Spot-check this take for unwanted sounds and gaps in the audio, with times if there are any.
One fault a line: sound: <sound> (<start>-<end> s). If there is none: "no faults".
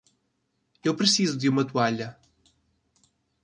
no faults